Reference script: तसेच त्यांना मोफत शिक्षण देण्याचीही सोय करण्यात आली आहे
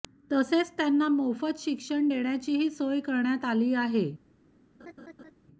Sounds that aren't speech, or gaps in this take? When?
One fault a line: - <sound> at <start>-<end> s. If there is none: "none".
- laugh at 4.8-5.3 s